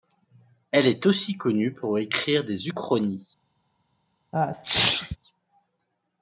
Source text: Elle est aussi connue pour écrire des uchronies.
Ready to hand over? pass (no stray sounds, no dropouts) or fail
fail